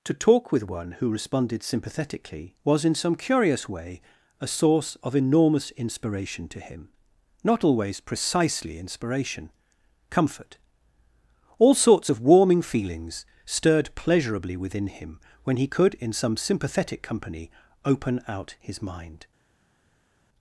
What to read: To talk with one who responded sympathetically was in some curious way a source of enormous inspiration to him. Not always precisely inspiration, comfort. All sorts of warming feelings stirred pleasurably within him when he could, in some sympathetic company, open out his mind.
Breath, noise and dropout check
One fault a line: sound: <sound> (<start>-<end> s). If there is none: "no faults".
no faults